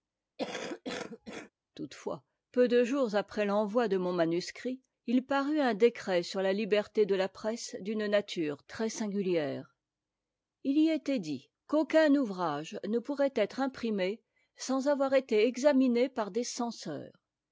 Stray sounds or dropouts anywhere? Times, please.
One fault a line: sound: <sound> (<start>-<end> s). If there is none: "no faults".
sound: cough (0.4-1.5 s)